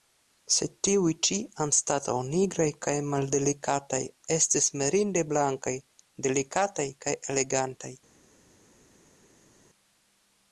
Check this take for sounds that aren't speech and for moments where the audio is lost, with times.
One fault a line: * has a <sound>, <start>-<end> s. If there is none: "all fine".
all fine